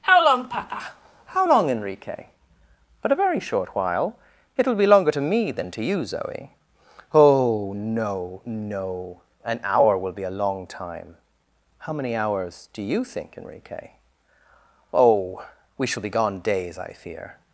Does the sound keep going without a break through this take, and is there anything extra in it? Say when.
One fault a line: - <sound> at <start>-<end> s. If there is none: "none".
none